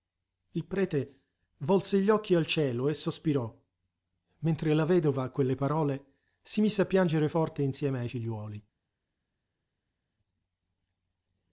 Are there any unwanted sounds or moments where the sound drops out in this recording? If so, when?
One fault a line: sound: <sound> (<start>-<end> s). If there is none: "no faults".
no faults